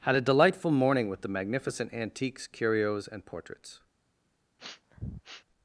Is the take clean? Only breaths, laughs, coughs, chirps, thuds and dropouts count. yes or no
no